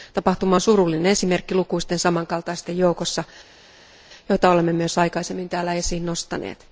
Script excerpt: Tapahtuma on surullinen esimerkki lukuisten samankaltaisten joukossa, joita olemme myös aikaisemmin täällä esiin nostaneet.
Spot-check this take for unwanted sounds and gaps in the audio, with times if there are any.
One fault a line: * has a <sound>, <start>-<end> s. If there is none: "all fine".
all fine